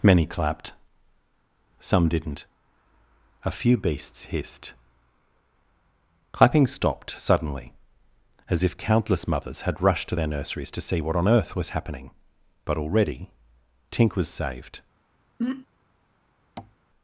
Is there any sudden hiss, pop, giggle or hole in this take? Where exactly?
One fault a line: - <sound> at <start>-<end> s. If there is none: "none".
- throat clearing at 15.4-15.7 s
- tap at 16.6-16.7 s